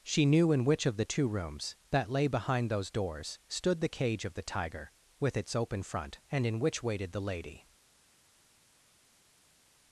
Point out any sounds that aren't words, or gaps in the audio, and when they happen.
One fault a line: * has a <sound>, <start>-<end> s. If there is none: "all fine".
all fine